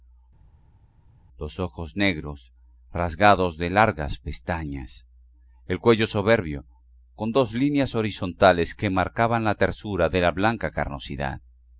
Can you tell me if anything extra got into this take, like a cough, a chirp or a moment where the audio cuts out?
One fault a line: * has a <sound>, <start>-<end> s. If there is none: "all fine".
all fine